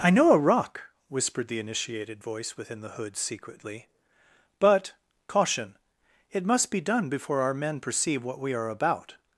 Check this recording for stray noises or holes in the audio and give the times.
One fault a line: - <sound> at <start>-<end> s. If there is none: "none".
none